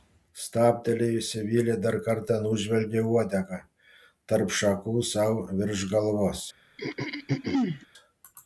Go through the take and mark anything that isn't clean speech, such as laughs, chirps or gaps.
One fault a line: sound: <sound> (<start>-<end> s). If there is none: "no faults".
sound: throat clearing (6.8-7.9 s)